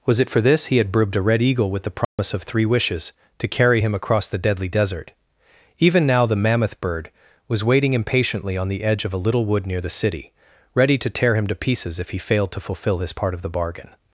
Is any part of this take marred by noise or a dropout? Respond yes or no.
yes